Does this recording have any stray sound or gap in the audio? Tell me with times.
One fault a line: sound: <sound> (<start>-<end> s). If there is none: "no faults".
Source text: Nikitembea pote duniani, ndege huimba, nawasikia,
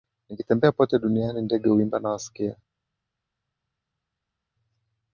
no faults